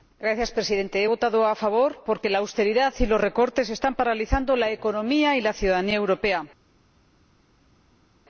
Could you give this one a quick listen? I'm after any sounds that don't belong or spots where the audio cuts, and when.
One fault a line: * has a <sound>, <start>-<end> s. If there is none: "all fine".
all fine